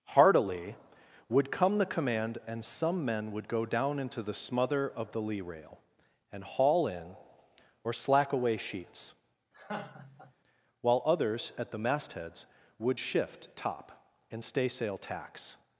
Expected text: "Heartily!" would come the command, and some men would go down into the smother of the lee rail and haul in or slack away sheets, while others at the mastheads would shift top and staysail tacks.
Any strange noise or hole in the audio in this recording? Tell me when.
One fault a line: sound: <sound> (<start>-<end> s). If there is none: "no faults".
sound: laugh (9.5-10.3 s)